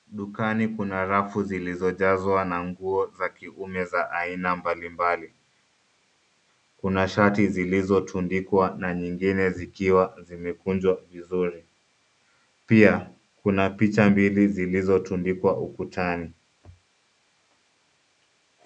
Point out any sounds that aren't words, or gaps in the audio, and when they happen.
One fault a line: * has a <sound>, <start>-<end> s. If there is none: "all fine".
all fine